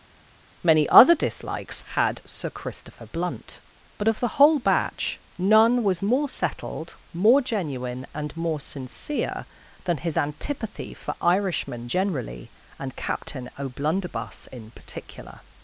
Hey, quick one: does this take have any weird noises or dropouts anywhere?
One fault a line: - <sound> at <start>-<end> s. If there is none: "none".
none